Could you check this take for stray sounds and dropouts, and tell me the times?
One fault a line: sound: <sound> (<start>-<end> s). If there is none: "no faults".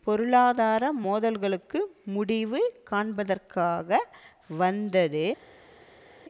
no faults